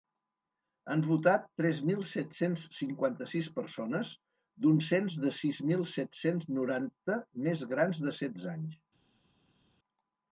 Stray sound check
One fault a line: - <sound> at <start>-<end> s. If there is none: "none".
none